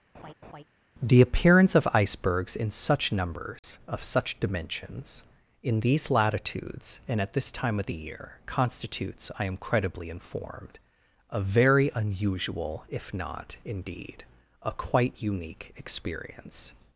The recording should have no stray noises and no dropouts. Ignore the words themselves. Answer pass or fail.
fail